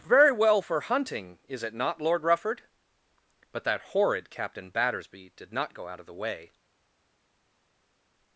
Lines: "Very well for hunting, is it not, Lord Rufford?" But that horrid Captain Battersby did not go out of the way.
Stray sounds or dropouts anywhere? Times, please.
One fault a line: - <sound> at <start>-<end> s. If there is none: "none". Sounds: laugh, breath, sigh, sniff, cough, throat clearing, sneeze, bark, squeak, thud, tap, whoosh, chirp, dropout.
none